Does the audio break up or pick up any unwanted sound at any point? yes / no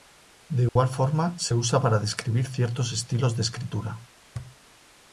yes